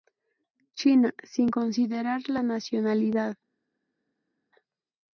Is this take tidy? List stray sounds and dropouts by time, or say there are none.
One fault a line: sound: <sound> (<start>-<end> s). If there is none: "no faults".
no faults